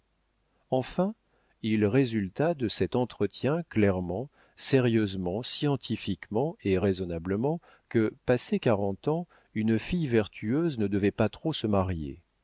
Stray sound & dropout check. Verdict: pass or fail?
pass